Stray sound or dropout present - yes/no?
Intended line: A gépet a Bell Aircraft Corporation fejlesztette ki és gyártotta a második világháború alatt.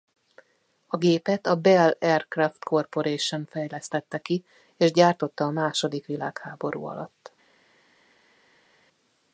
no